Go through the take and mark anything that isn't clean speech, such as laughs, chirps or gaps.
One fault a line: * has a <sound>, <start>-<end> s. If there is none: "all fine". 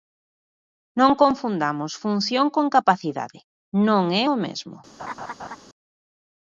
* has a laugh, 5.0-5.6 s